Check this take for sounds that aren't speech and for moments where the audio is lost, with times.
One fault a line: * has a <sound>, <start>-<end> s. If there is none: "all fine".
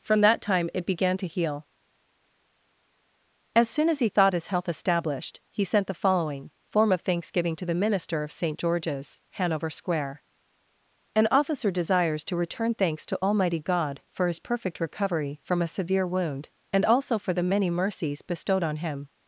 all fine